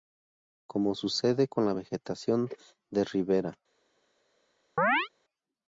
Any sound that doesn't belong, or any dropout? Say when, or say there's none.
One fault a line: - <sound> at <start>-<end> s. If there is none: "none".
- chirp at 4.8-5.1 s